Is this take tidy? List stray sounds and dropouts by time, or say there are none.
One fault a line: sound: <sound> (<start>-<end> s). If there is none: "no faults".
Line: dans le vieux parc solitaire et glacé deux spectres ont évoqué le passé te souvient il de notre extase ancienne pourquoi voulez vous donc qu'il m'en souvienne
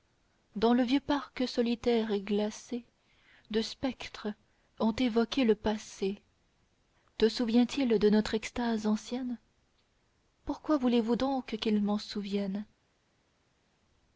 no faults